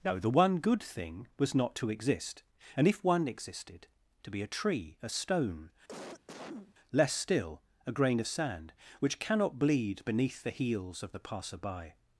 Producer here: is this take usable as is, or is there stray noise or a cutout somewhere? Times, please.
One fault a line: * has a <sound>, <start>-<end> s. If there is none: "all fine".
* has a cough, 5.9-6.7 s